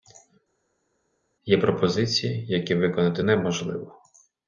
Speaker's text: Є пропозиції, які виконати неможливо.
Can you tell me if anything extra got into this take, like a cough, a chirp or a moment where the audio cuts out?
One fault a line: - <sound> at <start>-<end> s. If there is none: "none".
none